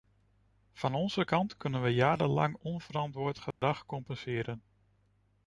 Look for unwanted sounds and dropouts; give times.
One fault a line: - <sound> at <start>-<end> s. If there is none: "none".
- dropout at 3.5-3.6 s